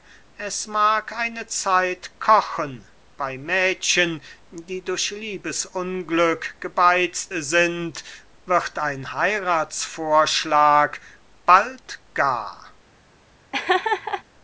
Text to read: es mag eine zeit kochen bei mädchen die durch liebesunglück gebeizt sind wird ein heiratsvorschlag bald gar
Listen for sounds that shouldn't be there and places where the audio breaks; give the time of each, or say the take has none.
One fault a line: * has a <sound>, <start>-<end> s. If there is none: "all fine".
* has a laugh, 13.5-14.2 s